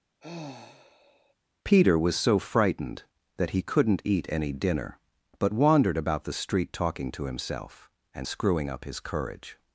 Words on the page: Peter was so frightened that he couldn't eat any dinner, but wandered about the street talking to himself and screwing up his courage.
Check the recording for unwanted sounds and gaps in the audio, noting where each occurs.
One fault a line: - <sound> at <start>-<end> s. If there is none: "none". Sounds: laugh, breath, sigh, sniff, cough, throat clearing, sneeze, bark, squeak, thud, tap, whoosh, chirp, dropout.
- sigh at 0.2-1.3 s